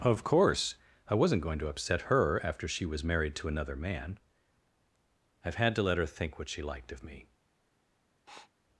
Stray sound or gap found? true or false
true